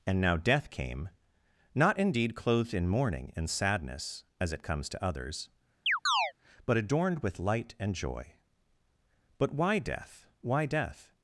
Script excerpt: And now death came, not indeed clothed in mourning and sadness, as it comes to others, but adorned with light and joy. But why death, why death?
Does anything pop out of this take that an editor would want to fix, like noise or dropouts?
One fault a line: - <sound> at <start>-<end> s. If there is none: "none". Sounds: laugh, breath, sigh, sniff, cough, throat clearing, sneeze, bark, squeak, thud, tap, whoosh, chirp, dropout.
- chirp at 5.9-6.3 s